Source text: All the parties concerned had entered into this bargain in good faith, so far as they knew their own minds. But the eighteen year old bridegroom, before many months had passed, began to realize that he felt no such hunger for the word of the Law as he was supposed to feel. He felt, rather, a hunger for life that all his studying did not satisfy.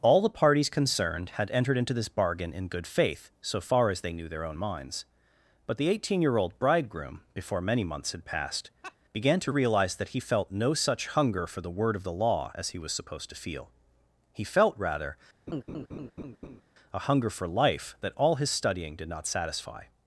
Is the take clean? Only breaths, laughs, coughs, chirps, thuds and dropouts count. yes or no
no